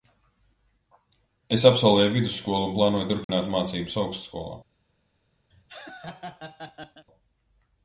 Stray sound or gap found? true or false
true